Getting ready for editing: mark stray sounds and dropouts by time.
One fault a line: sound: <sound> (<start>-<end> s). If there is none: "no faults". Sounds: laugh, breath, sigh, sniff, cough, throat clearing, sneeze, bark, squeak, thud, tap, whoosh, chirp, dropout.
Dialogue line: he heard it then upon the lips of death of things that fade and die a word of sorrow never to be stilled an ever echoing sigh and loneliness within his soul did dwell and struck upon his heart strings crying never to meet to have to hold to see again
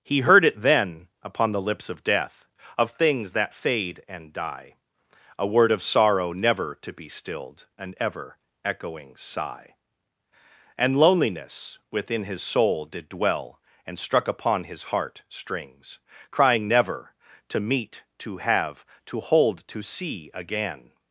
no faults